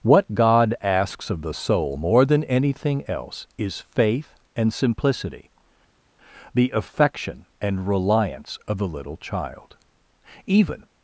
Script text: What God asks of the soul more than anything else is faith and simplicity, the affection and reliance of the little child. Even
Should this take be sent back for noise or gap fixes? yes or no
no